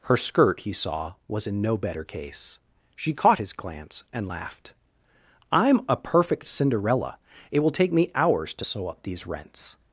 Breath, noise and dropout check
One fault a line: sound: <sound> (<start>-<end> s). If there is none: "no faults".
no faults